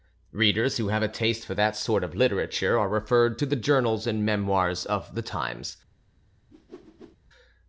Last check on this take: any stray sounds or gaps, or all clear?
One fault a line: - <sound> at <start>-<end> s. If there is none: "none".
- whoosh at 6.5-7.2 s